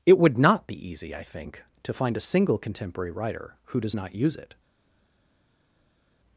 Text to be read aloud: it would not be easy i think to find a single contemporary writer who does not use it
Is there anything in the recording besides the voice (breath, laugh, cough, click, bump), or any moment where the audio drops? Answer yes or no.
no